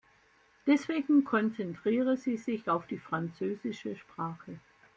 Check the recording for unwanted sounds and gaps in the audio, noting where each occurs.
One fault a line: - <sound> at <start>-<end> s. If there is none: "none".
none